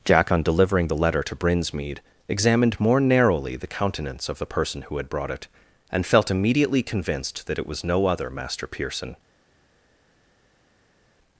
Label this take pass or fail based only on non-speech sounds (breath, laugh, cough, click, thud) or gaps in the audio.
pass